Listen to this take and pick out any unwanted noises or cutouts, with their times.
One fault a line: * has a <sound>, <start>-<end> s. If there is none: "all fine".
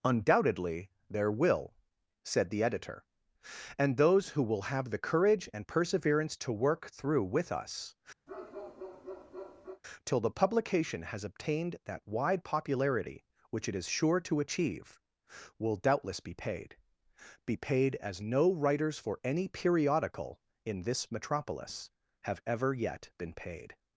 * has a bark, 8.3-9.8 s